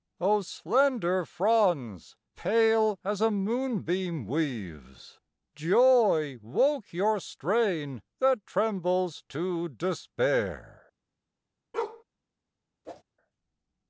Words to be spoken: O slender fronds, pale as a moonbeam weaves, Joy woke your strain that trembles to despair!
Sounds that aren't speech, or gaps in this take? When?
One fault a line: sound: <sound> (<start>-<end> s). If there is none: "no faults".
sound: bark (11.7-12.0 s)
sound: whoosh (12.8-13.0 s)